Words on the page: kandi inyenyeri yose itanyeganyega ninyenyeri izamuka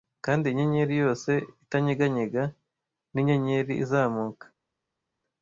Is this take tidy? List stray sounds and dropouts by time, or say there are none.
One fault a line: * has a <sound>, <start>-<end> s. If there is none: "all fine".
all fine